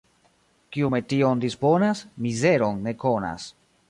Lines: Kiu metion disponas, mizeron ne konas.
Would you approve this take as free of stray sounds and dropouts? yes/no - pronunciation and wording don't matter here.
yes